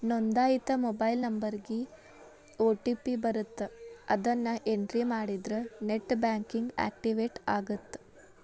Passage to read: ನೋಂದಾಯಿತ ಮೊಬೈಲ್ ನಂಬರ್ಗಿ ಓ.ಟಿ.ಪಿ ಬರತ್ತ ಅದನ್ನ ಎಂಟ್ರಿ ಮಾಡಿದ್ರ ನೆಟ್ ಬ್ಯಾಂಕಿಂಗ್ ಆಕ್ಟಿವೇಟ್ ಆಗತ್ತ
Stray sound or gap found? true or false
false